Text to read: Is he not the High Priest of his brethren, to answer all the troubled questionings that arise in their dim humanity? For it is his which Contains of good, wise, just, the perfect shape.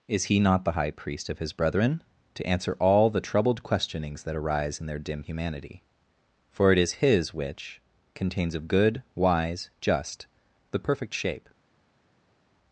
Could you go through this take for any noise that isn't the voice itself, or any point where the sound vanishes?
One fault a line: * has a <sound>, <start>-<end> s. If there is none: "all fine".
all fine